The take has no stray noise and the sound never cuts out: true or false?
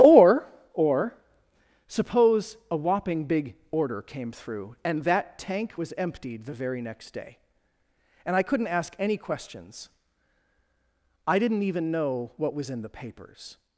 true